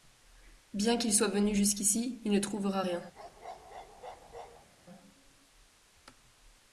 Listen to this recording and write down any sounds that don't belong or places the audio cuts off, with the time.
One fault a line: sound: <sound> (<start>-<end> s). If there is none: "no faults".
sound: bark (3.1-4.7 s)